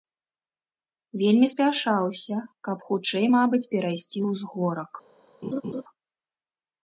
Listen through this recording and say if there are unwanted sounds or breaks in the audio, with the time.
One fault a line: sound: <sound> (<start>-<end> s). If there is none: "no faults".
sound: laugh (5.4-5.8 s)